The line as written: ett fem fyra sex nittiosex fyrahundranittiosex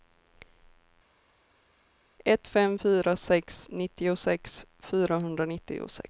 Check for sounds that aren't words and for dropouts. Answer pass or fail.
pass